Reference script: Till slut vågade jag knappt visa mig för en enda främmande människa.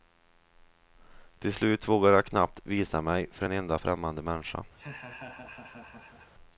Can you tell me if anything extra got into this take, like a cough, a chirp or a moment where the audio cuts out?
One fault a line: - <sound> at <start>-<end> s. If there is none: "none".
- laugh at 4.8-6.3 s